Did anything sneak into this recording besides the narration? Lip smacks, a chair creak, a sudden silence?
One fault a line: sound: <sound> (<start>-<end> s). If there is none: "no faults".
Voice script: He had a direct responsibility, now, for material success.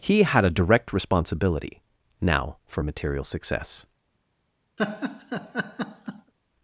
sound: laugh (4.8-6.3 s)